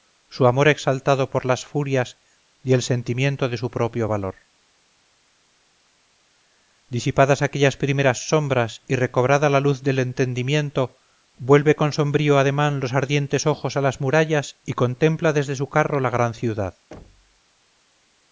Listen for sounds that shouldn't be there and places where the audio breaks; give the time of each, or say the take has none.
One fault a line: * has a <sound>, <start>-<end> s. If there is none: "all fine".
* has a thud, 16.9-17.4 s